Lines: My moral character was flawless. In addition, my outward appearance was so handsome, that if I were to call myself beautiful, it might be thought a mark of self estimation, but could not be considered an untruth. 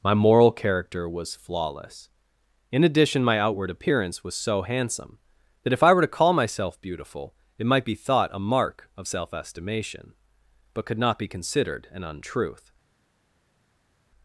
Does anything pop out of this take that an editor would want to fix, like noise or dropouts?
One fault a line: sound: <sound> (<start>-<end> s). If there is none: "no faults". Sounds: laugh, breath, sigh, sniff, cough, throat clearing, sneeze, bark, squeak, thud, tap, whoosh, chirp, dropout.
no faults